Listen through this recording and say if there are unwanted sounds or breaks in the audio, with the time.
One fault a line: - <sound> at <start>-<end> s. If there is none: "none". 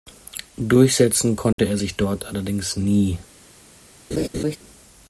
- dropout at 1.5-1.6 s
- laugh at 4.1-4.6 s